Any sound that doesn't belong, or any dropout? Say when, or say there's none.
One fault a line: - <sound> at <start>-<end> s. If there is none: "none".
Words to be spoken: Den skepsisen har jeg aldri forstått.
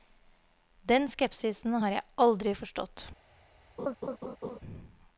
- laugh at 3.8-4.6 s